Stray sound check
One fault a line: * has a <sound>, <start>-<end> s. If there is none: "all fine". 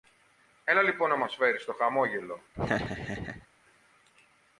* has a laugh, 2.5-3.5 s